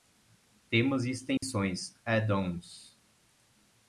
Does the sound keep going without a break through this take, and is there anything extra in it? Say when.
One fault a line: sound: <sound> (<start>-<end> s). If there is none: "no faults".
sound: dropout (1.4-1.4 s)